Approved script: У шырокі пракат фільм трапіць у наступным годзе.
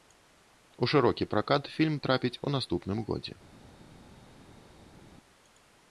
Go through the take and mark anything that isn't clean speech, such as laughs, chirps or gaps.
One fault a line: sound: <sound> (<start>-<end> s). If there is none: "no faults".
no faults